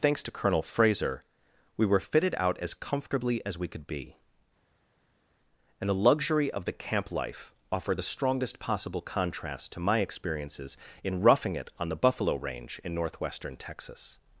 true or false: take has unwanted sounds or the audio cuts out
false